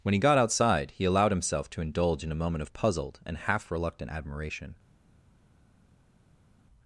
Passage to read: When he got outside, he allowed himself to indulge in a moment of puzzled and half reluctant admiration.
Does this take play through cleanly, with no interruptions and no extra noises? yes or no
yes